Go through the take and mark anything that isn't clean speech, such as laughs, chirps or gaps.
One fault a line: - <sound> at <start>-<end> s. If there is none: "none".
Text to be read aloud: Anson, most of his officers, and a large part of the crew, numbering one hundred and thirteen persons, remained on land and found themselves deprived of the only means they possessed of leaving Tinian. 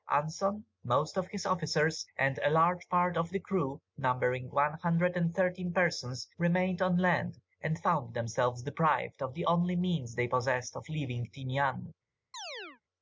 - chirp at 12.3-12.8 s